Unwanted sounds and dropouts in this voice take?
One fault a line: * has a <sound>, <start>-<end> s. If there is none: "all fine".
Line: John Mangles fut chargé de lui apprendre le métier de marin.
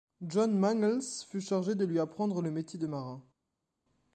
all fine